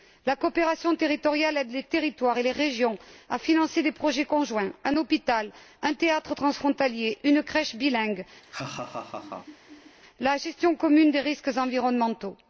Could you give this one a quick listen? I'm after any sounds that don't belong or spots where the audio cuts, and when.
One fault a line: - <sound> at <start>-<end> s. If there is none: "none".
- laugh at 8.4-10.0 s